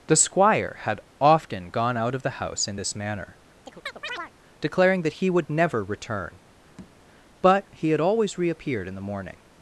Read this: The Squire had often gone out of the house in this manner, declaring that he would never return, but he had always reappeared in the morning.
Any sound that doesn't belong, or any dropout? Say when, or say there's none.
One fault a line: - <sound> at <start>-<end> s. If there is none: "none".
- chirp at 3.6-4.3 s
- tap at 6.8-7.0 s